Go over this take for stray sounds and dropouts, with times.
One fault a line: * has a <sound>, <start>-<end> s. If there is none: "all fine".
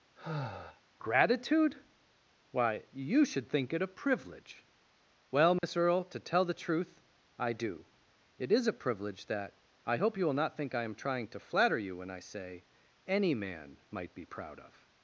* has a sigh, 0.2-0.8 s
* has a dropout, 5.6-5.6 s